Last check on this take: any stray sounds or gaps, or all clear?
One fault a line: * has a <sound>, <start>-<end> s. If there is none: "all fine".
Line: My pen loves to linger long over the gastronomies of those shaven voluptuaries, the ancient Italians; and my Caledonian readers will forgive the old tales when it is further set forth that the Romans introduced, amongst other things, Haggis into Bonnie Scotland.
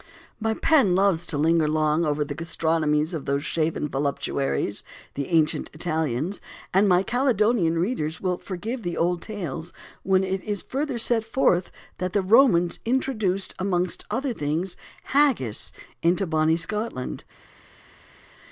all fine